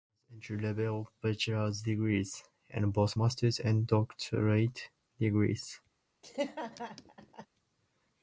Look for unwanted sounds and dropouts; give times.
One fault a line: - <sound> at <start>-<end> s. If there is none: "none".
- laugh at 6.2-7.5 s